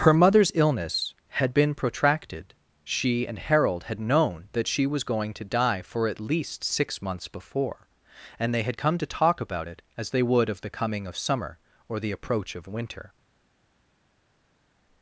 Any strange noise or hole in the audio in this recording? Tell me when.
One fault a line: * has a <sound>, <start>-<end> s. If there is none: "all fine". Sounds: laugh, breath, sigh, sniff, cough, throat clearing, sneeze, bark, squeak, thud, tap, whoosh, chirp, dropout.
all fine